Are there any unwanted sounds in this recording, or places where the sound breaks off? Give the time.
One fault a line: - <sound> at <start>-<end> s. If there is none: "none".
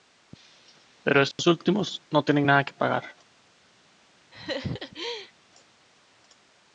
- dropout at 1.3-1.4 s
- laugh at 4.3-5.3 s